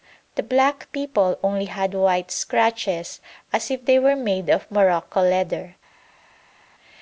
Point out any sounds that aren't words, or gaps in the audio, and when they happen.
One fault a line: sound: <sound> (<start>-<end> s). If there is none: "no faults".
no faults